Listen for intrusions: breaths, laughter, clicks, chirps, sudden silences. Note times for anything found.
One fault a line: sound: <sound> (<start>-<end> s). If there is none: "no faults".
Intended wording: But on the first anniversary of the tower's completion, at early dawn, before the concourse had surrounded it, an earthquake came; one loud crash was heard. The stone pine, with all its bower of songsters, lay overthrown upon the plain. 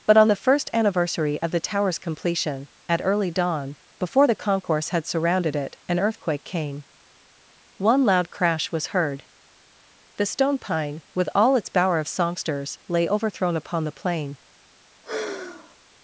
sound: sigh (15.0-15.8 s)